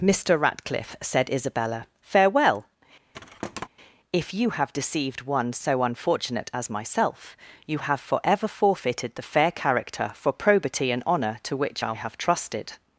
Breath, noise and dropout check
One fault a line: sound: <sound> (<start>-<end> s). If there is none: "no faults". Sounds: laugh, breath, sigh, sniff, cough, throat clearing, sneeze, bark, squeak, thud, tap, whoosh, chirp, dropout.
sound: thud (3.1-3.7 s)